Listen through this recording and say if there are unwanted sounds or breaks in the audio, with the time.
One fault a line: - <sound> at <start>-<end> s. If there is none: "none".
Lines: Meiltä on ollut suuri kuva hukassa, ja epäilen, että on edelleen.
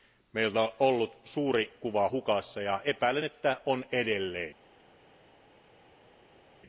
none